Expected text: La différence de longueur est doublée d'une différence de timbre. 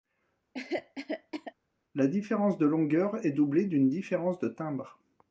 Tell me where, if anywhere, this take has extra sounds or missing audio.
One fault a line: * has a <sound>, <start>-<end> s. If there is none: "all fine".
* has a cough, 0.5-1.5 s